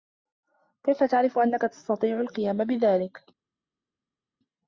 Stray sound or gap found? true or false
false